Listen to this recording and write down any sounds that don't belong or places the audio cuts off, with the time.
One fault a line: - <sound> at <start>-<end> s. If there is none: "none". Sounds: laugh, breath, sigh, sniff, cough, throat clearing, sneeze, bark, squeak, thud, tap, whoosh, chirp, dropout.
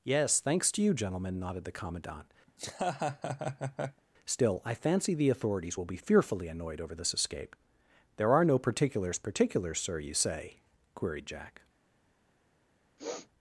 - laugh at 2.5-4.0 s
- sniff at 13.0-13.3 s